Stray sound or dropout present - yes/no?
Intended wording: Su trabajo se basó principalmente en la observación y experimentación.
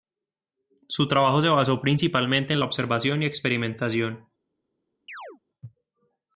yes